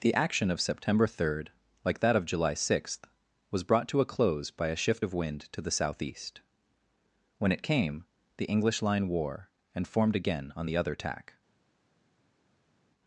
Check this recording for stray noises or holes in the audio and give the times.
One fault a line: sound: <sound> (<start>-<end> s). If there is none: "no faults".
no faults